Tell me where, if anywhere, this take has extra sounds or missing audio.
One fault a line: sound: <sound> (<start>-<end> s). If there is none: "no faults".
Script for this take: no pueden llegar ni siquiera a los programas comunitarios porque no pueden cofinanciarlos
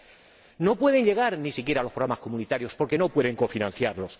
no faults